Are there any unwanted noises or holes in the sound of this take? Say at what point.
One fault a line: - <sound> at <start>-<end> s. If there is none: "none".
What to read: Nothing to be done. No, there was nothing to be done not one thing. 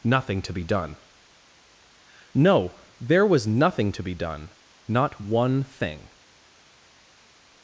none